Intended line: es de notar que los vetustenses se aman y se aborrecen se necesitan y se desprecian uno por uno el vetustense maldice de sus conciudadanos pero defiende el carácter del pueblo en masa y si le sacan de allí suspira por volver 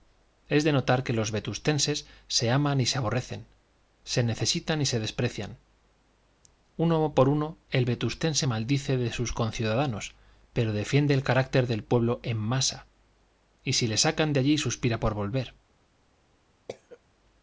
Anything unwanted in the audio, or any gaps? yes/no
yes